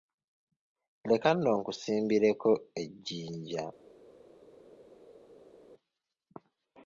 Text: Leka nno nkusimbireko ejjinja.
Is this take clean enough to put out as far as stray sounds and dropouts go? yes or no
yes